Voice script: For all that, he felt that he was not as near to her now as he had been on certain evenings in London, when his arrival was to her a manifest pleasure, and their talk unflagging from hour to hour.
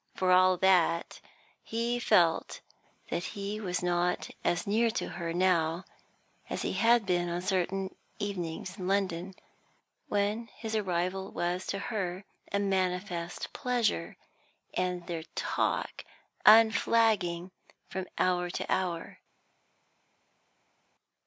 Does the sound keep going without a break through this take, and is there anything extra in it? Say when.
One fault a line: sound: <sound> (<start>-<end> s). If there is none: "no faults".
no faults